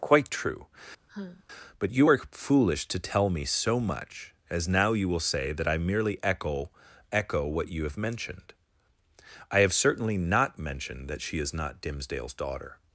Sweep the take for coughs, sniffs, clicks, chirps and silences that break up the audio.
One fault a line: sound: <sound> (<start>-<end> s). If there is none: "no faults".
sound: sigh (1.1-1.4 s)